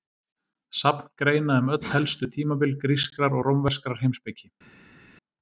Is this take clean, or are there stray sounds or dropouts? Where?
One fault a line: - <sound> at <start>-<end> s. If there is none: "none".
none